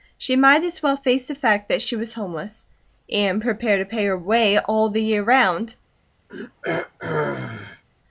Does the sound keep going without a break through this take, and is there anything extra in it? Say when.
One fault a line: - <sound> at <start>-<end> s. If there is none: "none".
- throat clearing at 6.3-7.8 s